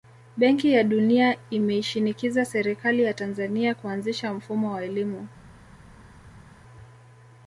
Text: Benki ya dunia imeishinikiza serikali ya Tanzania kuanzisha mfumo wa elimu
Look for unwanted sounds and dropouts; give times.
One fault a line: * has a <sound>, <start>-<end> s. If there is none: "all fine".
all fine